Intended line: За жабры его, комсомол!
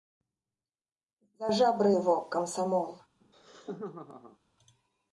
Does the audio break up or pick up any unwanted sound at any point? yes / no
yes